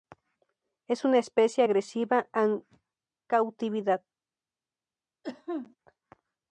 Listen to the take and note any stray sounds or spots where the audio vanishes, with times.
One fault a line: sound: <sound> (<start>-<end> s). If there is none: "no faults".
sound: cough (5.2-5.8 s)